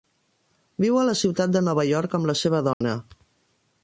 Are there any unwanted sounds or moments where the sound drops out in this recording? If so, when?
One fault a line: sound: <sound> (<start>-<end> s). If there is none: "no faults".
sound: dropout (2.7-2.8 s)